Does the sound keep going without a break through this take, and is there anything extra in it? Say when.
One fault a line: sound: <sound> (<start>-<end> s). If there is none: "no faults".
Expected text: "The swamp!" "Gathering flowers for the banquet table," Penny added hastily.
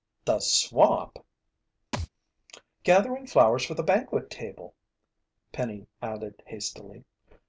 sound: thud (1.9-2.1 s)